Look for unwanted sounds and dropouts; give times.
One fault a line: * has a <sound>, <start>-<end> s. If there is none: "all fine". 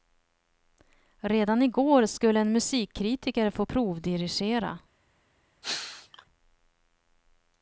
* has a sneeze, 5.6-6.3 s